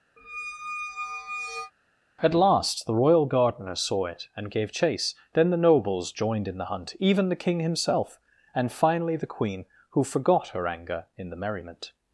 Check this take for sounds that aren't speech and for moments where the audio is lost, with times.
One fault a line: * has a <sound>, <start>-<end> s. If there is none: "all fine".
* has a squeak, 0.2-1.7 s